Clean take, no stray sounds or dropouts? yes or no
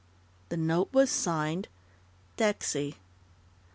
yes